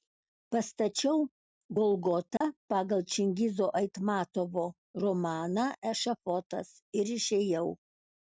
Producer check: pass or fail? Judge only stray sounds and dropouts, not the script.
fail